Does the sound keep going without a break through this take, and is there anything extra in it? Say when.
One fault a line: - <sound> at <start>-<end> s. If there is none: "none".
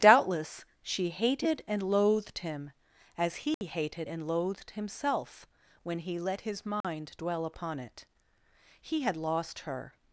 - dropout at 3.5-3.6 s
- dropout at 6.8-6.8 s